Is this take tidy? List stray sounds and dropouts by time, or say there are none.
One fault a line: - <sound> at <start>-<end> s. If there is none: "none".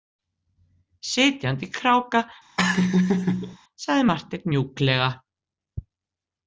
- laugh at 2.6-3.6 s